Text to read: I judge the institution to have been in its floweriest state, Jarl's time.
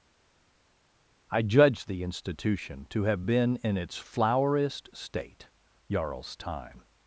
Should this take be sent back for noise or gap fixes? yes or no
no